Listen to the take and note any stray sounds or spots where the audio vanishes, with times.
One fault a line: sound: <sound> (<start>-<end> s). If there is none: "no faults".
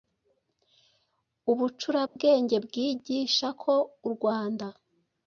sound: dropout (2.1-2.2 s)